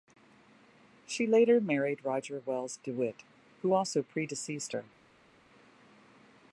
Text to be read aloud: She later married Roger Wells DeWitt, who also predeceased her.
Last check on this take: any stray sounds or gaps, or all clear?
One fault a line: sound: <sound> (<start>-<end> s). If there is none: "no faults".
no faults